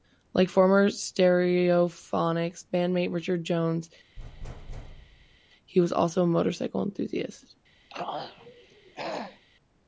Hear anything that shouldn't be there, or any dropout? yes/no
yes